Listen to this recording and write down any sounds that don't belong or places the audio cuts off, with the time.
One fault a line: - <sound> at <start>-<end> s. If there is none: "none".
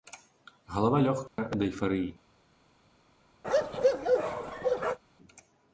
- dropout at 1.3-1.4 s
- bark at 3.4-5.0 s